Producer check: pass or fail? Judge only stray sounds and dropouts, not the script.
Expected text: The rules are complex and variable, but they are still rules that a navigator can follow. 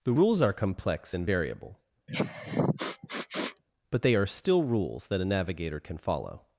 fail